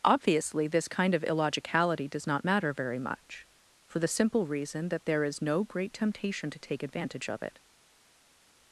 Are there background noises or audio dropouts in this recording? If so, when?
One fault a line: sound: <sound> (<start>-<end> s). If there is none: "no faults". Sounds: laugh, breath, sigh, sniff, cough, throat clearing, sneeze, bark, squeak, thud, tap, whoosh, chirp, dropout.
no faults